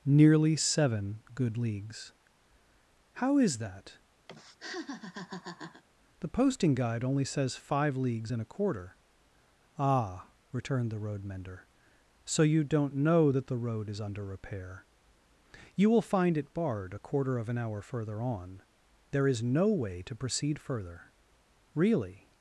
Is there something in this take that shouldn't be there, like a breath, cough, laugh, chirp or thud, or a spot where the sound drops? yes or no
yes